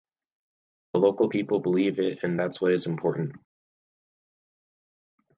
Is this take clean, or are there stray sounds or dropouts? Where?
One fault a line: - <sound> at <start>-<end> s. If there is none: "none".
none